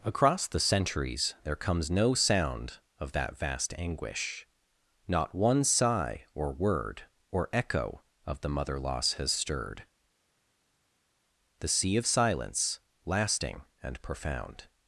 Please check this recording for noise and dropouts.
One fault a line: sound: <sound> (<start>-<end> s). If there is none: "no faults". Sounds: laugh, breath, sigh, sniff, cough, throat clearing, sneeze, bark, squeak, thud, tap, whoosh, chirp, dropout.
no faults